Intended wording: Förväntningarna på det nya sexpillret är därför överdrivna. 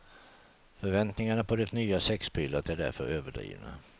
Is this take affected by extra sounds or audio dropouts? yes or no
no